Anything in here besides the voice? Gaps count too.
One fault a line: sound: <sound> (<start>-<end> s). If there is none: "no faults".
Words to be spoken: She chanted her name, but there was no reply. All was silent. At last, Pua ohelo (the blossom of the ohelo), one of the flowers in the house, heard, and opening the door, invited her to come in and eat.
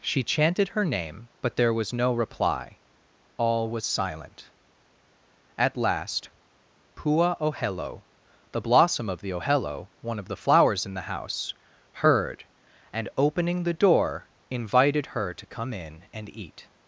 no faults